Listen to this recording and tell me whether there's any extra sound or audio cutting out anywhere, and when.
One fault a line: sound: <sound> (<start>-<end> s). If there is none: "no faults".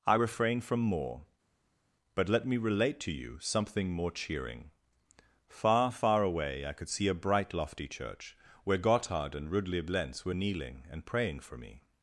no faults